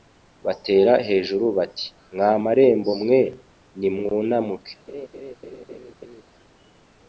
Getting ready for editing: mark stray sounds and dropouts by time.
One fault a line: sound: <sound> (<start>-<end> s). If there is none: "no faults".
sound: laugh (4.9-6.2 s)